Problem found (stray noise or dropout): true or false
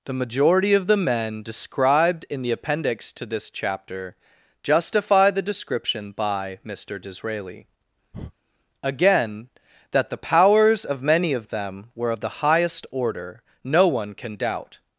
true